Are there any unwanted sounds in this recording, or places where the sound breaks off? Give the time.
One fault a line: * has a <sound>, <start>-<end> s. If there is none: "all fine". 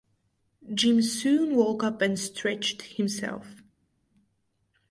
all fine